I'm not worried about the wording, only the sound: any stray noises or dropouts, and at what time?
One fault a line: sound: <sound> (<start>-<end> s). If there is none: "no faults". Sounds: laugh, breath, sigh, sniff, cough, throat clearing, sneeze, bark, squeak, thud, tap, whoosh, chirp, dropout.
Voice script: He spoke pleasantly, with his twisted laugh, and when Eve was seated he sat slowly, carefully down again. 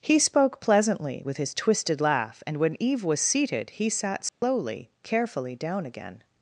sound: dropout (4.3-4.4 s)